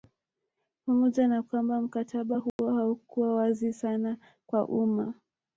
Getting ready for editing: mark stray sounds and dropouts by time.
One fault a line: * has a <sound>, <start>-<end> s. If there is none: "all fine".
* has a dropout, 2.5-2.6 s